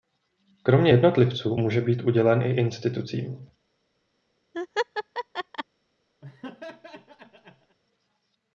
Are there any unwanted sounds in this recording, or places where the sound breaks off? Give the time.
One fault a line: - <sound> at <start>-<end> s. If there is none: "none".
- laugh at 4.5-5.6 s
- laugh at 6.2-7.8 s